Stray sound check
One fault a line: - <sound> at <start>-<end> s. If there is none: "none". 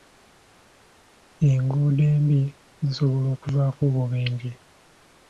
none